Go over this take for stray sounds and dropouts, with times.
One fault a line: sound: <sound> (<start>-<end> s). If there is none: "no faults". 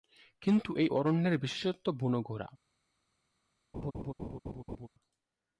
sound: laugh (3.7-4.9 s)